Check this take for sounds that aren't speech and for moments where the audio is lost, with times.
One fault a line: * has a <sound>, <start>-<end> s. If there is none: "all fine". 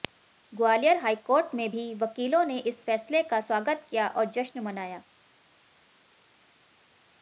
all fine